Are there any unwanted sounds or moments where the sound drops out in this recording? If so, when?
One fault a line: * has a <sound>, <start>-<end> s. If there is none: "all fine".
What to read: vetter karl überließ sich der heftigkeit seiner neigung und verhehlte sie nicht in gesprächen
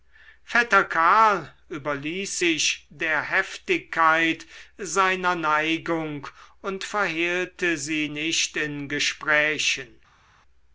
all fine